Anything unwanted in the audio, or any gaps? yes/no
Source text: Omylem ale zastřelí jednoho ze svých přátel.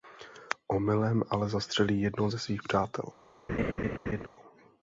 yes